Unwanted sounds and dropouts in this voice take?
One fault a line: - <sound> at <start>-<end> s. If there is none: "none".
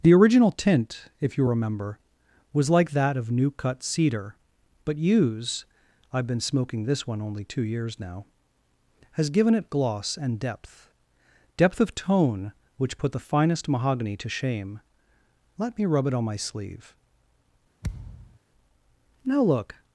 - thud at 17.8-18.4 s